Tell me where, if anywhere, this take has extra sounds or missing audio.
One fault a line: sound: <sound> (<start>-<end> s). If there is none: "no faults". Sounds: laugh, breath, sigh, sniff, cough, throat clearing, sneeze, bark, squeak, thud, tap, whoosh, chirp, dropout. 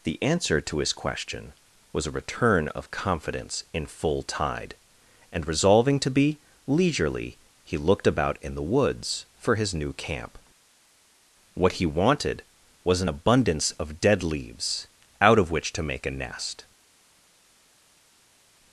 no faults